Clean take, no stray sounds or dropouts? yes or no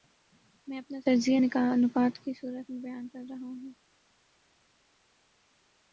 yes